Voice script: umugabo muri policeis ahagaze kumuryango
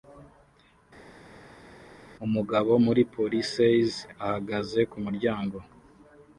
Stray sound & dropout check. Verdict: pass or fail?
pass